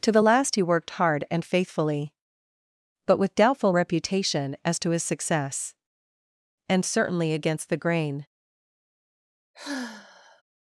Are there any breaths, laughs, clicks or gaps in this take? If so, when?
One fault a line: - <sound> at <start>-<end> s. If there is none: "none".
- sigh at 9.5-10.4 s